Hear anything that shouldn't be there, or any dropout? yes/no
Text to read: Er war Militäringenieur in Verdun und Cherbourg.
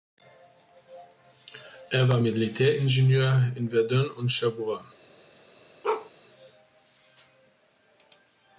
yes